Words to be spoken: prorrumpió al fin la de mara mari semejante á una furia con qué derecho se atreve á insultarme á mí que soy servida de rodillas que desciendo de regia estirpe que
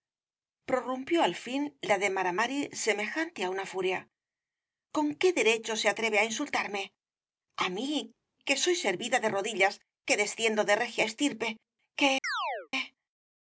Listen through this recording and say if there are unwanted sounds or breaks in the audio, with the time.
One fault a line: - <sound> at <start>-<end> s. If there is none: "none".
- chirp at 12.2-12.7 s